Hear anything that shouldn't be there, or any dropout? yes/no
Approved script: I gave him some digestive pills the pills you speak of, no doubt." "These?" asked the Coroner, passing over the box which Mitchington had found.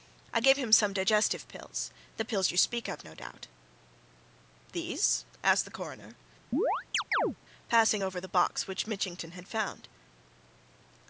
yes